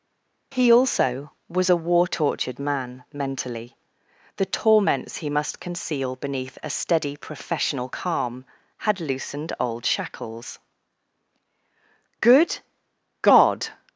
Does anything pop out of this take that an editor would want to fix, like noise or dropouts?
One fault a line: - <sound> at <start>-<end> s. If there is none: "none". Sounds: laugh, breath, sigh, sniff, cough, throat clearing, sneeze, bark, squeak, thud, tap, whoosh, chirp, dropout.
none